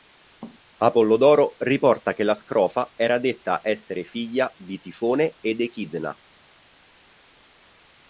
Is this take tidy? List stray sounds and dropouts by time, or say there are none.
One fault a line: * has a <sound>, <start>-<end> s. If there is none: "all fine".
all fine